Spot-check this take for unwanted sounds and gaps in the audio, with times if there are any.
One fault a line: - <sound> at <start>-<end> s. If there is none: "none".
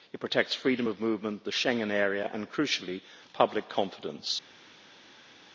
none